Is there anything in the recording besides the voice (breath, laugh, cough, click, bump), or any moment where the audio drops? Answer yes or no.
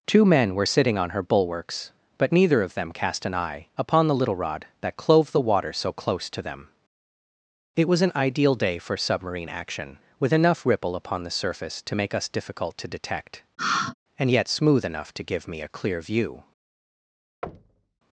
yes